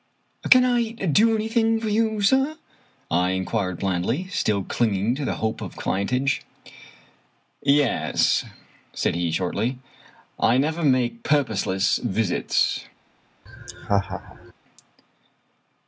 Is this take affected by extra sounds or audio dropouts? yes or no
yes